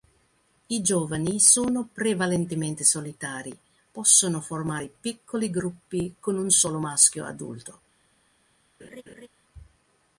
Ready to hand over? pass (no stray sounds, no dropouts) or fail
fail